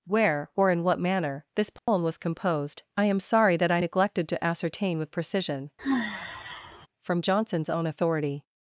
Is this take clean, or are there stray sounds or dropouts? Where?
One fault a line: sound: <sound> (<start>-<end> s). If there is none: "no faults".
sound: dropout (1.8-1.9 s)
sound: sigh (5.8-6.9 s)